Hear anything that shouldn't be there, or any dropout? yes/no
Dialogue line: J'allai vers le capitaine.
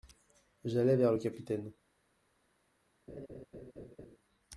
yes